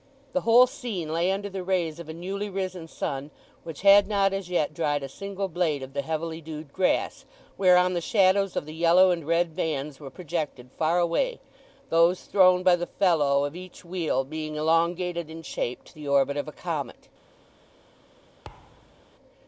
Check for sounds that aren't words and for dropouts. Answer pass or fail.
fail